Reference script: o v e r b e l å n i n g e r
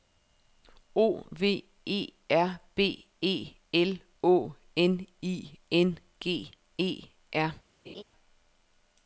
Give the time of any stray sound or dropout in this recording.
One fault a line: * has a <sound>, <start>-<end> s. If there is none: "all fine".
* has a laugh, 7.8-8.0 s